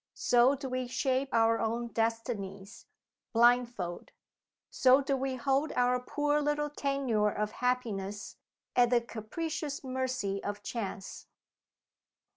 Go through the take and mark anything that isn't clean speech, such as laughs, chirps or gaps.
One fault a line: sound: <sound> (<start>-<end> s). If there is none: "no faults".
no faults